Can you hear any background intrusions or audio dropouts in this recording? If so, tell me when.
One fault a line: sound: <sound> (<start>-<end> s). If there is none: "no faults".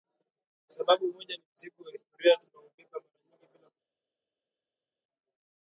no faults